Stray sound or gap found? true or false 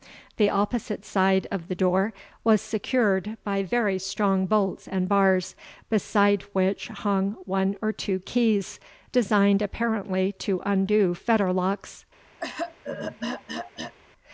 true